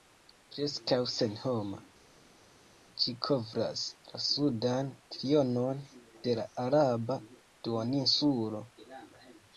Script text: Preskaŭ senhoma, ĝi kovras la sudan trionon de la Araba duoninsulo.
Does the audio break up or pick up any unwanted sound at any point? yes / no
no